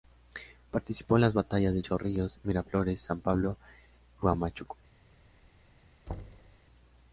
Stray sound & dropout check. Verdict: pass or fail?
fail